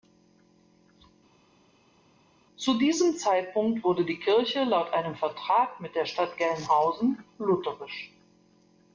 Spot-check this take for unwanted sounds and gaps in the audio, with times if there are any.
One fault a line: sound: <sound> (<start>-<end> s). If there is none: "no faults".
no faults